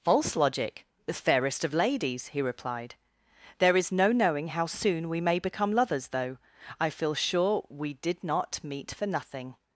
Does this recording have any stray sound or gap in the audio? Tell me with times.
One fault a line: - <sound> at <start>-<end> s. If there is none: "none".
none